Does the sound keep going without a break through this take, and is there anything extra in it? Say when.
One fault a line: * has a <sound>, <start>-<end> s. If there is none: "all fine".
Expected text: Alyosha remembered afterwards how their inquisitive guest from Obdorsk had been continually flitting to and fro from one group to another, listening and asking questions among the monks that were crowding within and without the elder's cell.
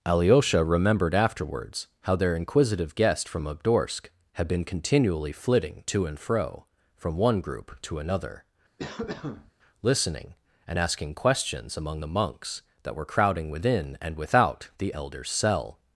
* has a cough, 8.8-9.5 s